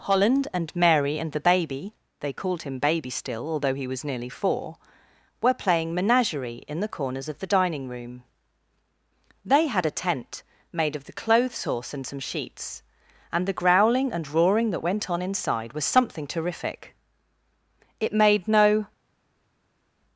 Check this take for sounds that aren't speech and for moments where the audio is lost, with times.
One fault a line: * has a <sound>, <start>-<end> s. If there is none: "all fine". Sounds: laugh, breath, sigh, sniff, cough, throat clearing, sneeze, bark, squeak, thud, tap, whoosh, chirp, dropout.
all fine